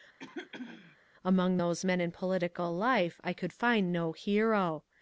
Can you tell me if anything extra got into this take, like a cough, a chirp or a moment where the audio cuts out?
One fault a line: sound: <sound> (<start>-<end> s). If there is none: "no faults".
sound: throat clearing (0.2-1.0 s)